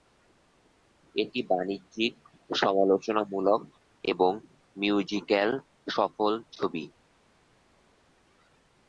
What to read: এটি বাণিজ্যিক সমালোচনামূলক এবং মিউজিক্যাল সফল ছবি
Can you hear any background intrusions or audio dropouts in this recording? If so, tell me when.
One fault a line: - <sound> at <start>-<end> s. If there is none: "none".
none